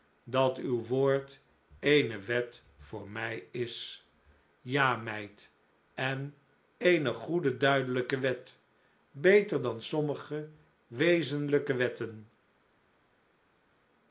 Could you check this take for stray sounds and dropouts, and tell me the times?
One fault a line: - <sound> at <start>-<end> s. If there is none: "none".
none